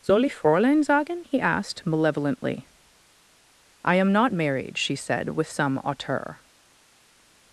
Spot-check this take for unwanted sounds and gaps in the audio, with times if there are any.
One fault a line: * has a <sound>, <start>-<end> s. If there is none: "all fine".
all fine